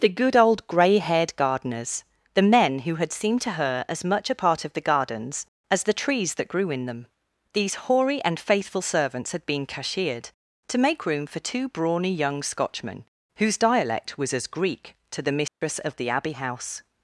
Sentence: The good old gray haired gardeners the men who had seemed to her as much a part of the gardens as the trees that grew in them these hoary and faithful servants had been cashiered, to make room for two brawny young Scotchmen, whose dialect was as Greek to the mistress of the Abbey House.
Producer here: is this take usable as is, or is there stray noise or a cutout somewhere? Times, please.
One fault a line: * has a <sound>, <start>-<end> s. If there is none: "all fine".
* has a dropout, 15.5-15.6 s